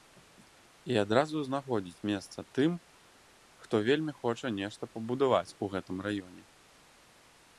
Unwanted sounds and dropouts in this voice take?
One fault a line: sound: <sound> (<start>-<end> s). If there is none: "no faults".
no faults